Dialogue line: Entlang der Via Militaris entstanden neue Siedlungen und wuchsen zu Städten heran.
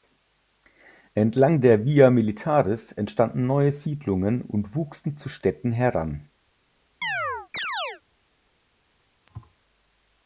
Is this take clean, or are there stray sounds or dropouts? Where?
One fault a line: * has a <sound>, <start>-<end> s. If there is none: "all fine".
* has a chirp, 7.0-8.0 s
* has a thud, 9.3-9.5 s